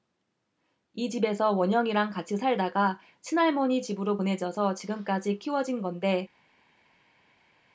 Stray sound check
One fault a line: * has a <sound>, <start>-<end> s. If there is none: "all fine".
all fine